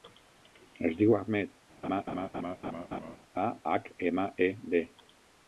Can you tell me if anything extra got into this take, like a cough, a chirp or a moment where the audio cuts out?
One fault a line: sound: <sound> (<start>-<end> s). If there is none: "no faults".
sound: laugh (1.8-3.2 s)